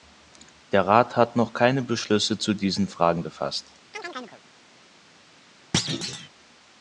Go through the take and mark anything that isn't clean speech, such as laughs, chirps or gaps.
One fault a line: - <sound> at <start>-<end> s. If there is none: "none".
- chirp at 3.9-4.4 s
- thud at 5.7-6.3 s